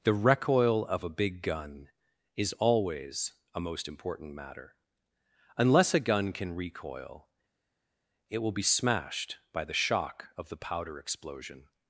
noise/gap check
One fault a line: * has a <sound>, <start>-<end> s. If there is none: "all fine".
all fine